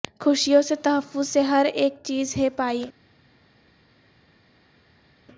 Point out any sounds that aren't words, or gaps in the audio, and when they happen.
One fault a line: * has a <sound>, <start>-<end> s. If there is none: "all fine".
all fine